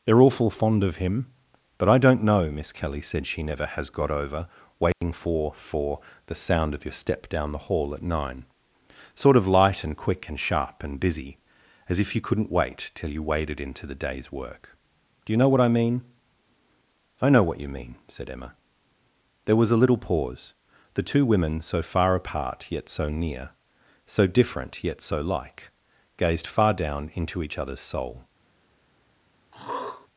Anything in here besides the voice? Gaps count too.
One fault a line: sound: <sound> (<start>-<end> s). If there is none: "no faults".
sound: dropout (4.9-5.0 s)
sound: throat clearing (29.5-30.1 s)